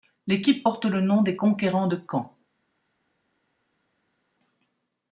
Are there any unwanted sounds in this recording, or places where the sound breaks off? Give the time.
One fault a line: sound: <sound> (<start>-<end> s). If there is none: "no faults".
no faults